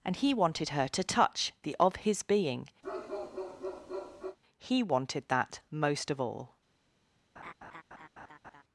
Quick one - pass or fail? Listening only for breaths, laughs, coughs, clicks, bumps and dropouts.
fail